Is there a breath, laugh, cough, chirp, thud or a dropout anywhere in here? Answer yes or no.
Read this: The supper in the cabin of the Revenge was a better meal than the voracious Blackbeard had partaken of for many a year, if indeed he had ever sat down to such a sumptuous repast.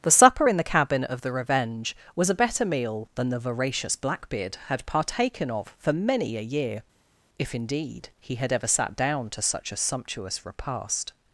no